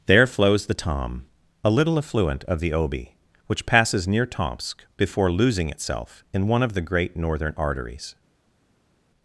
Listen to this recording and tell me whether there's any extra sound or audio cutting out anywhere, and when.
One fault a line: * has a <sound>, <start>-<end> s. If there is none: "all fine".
all fine